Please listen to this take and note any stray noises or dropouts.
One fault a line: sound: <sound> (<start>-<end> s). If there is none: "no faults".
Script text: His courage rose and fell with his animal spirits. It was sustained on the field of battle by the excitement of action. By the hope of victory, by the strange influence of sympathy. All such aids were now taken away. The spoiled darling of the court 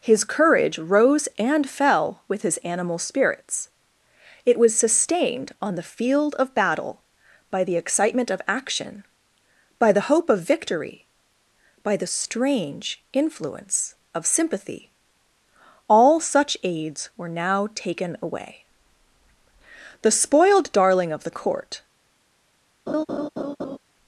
sound: laugh (22.9-23.8 s)